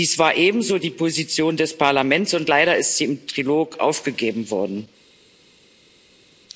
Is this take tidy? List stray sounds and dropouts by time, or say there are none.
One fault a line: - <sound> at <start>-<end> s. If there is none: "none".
none